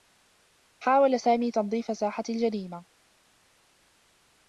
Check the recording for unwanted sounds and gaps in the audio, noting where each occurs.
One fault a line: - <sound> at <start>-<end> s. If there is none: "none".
none